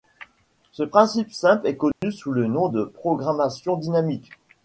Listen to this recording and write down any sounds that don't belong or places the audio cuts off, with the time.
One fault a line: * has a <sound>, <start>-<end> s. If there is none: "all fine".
* has a dropout, 1.9-2.0 s